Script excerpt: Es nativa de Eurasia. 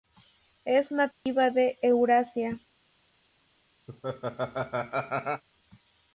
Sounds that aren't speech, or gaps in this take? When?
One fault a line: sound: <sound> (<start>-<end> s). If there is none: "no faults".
sound: dropout (1.1-1.3 s)
sound: laugh (3.9-5.4 s)